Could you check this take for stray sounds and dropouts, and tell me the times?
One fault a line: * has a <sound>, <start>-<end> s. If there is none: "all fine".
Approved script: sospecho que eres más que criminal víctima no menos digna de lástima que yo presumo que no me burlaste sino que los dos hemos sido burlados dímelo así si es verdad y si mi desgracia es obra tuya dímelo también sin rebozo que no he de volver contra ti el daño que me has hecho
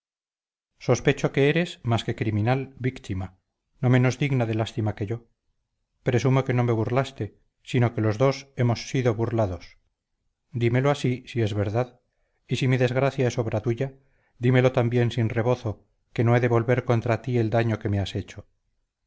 all fine